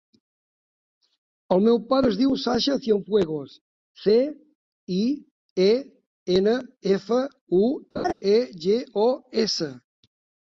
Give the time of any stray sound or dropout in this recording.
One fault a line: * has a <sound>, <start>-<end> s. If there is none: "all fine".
* has a laugh, 8.0-8.1 s